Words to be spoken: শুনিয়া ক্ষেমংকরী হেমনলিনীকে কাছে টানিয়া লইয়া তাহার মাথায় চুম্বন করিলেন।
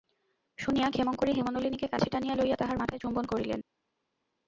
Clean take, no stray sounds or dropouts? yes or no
yes